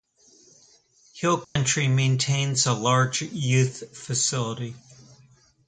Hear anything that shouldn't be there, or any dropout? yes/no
yes